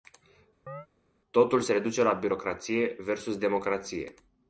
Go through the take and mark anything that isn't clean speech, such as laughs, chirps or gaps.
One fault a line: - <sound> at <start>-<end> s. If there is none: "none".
- chirp at 0.7-0.9 s